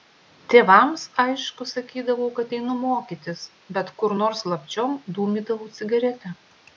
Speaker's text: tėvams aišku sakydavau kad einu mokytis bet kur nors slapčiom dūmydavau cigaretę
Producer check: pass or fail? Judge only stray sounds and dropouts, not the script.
pass